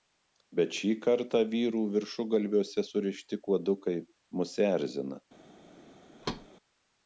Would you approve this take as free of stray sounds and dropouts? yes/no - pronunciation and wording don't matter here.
no